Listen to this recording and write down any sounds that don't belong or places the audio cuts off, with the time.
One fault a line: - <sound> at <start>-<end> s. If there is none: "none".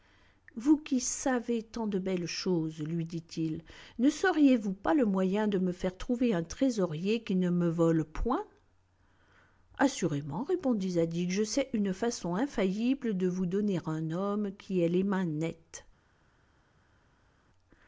none